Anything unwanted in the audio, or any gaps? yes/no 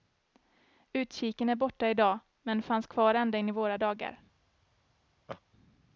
yes